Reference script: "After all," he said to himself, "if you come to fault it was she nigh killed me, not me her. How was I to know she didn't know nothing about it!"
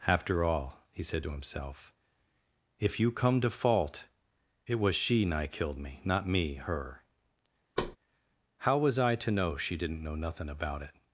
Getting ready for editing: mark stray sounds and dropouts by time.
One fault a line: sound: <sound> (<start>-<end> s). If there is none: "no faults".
sound: thud (7.8-8.0 s)